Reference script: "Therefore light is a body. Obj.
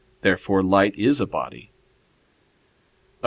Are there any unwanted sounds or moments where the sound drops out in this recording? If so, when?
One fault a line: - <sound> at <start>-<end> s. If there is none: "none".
none